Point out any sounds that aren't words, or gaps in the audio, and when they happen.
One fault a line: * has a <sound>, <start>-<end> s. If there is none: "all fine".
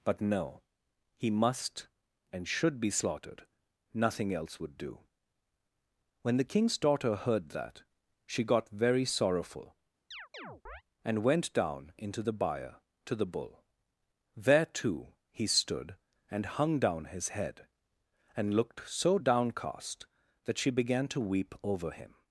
* has a chirp, 10.1-10.8 s